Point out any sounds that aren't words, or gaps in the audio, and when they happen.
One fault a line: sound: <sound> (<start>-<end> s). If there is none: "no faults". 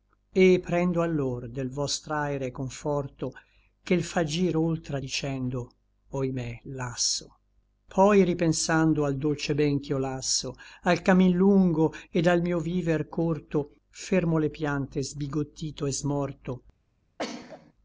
sound: sneeze (17.2-17.7 s)